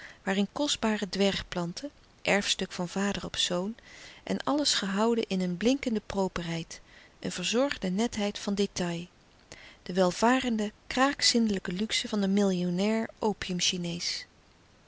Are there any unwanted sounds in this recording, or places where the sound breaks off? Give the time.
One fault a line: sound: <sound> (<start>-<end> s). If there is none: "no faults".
no faults